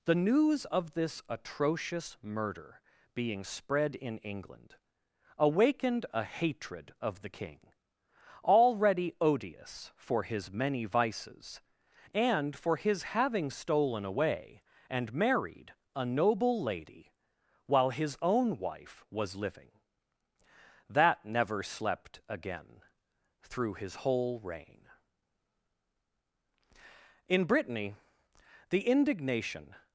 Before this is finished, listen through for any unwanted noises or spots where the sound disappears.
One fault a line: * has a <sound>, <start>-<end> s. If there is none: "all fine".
all fine